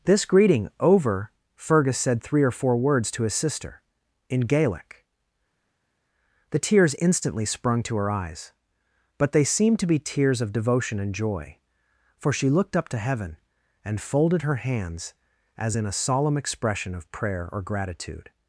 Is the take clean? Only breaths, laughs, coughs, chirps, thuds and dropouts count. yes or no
yes